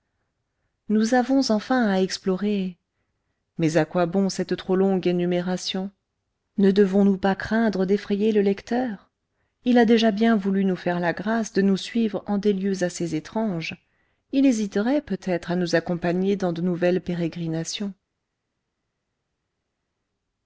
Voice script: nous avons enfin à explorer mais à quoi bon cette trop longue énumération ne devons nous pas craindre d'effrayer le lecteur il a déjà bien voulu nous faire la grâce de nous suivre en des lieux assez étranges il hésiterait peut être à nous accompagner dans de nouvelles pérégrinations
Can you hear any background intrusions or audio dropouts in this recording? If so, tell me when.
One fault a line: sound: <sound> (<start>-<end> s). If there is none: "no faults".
no faults